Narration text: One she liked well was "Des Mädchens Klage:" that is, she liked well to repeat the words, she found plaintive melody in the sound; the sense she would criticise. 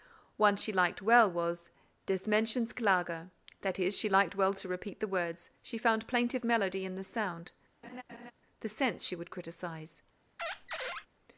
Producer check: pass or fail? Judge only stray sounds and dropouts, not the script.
fail